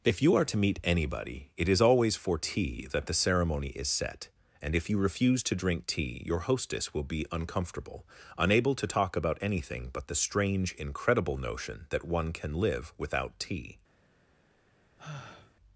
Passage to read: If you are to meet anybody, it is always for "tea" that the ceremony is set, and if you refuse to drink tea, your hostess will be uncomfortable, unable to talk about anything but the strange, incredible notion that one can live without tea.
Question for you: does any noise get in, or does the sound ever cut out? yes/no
yes